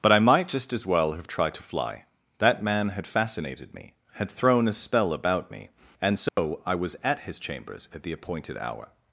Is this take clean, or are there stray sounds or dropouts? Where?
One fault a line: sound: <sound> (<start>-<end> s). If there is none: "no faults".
sound: dropout (6.3-6.4 s)